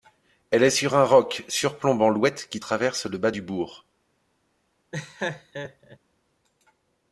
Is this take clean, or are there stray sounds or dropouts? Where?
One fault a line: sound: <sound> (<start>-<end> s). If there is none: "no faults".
sound: laugh (4.9-6.0 s)